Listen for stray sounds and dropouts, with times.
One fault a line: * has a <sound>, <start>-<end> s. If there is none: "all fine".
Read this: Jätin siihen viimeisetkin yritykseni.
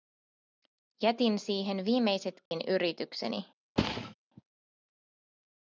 * has a dropout, 2.5-2.5 s
* has a thud, 3.8-4.1 s